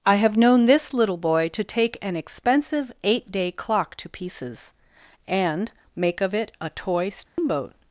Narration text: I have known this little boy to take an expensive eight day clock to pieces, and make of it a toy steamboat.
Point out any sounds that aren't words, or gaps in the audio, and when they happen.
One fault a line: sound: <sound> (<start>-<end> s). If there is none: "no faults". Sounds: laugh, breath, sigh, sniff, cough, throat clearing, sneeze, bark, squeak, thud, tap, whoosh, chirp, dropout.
sound: dropout (7.3-7.4 s)